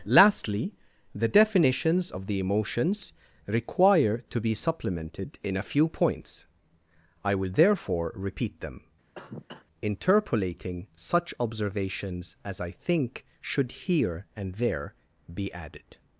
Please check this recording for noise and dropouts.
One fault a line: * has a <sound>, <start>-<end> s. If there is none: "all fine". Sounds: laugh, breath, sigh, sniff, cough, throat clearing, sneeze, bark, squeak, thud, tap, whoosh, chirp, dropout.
* has a cough, 9.1-9.7 s